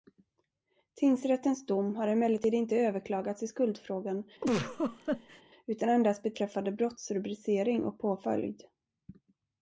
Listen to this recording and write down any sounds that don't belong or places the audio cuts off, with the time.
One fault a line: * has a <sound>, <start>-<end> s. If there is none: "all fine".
* has a laugh, 4.4-5.4 s